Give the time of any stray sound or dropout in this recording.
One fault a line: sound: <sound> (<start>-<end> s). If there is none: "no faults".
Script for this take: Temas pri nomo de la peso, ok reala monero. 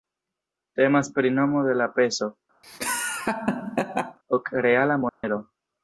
sound: laugh (2.6-4.2 s)
sound: dropout (5.1-5.2 s)